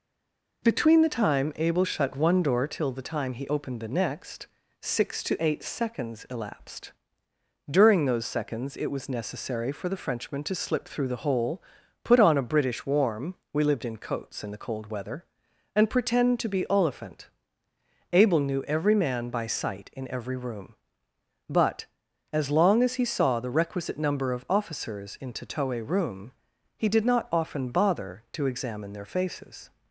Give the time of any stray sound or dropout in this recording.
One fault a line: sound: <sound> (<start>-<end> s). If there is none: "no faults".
no faults